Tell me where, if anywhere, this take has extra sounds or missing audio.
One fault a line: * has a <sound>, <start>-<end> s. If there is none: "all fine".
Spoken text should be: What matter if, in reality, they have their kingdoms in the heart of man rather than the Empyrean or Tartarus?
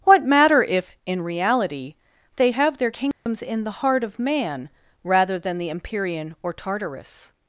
* has a dropout, 3.1-3.3 s